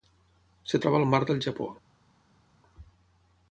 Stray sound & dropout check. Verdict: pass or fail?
pass